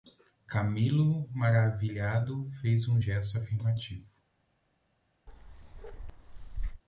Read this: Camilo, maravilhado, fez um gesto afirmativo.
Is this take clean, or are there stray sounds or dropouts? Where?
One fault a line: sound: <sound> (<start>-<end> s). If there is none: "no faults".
sound: bark (5.3-6.8 s)